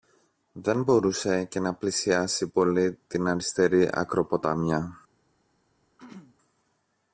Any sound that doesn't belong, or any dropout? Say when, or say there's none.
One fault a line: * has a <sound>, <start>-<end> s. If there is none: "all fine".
* has a throat clearing, 6.0-6.4 s